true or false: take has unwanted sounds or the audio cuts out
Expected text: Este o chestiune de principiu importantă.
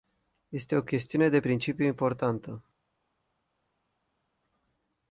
false